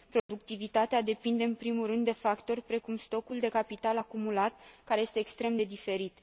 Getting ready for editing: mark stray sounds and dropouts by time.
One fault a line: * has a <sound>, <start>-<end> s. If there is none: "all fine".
* has a dropout, 0.2-0.3 s